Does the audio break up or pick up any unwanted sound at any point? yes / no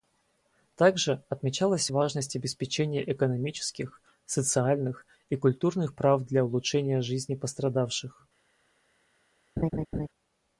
yes